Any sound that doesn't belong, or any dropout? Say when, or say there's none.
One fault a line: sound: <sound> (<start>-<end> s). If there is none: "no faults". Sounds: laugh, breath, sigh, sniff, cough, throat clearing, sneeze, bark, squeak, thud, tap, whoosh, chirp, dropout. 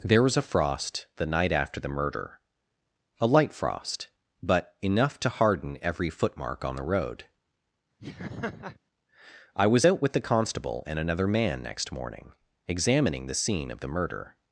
sound: laugh (8.0-8.8 s)